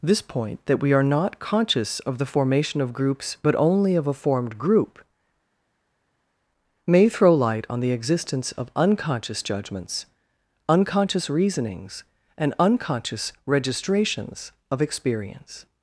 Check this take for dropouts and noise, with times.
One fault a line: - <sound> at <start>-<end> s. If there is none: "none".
none